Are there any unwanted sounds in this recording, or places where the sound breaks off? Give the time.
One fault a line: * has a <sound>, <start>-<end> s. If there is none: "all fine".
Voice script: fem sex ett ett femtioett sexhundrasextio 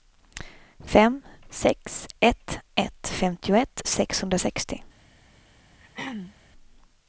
* has a throat clearing, 5.8-6.4 s